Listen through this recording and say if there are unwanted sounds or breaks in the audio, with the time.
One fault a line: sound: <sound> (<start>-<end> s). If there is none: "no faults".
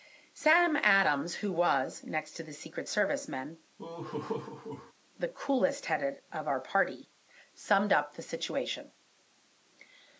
sound: laugh (3.8-4.9 s)